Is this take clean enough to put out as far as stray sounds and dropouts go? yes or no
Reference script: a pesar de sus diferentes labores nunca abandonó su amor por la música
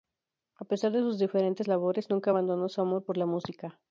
yes